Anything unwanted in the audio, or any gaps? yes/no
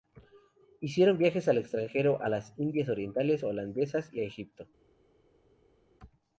no